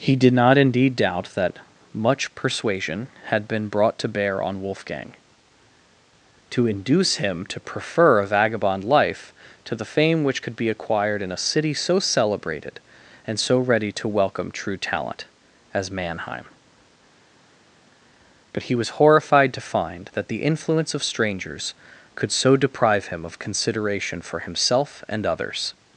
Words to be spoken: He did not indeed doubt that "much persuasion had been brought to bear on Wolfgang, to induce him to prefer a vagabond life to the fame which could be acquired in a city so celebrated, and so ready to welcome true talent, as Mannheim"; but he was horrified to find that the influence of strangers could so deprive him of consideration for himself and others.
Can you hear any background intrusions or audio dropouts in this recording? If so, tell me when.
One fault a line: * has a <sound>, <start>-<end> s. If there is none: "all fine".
all fine